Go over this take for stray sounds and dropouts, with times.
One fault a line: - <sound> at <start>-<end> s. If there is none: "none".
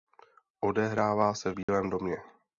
- dropout at 1.6-1.7 s